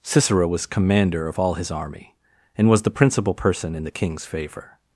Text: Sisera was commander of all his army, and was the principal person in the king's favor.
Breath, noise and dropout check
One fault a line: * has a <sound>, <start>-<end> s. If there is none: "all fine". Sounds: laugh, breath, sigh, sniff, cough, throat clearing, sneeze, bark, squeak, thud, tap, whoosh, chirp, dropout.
all fine